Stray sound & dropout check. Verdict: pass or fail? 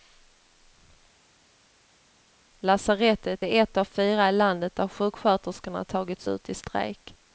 pass